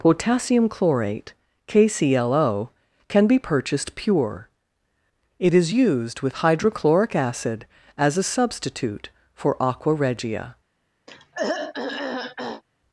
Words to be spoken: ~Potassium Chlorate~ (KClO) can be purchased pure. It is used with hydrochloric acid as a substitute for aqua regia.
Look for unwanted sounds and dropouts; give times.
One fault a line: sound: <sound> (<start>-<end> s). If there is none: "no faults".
sound: throat clearing (11.1-12.6 s)